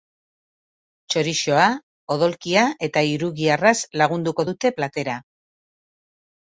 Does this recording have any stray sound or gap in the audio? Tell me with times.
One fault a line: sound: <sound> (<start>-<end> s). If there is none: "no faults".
no faults